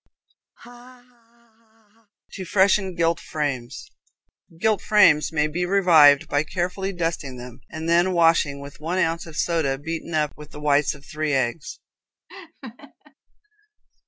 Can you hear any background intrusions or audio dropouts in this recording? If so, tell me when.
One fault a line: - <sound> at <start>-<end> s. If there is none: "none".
- laugh at 0.6-2.1 s
- laugh at 12.3-13.1 s